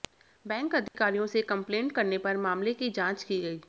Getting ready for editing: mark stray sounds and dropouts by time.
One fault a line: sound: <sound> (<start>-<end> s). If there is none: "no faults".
sound: dropout (0.9-0.9 s)